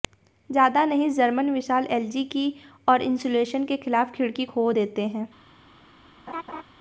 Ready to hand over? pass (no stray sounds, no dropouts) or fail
fail